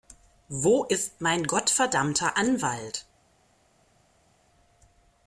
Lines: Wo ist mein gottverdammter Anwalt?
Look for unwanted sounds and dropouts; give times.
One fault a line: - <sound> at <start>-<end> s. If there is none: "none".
none